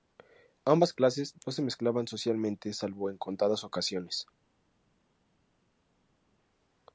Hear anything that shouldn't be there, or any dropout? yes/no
no